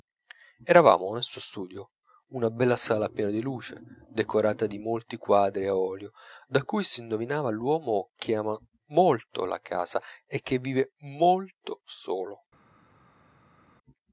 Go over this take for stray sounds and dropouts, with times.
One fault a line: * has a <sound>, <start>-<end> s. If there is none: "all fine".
all fine